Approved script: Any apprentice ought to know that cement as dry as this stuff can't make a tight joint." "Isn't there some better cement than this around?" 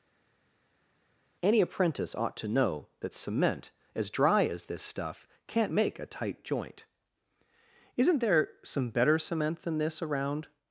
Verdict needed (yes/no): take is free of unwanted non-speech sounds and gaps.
yes